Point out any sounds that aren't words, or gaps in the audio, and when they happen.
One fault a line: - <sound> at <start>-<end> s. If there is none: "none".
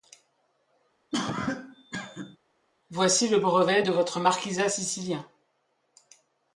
- cough at 1.1-2.4 s